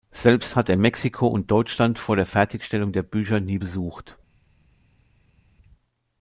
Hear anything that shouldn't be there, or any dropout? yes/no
no